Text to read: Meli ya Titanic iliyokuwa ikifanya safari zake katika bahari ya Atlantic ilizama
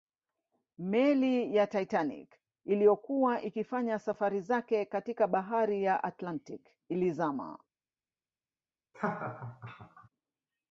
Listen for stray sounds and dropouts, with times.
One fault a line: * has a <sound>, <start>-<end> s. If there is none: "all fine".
* has a laugh, 8.9-10.1 s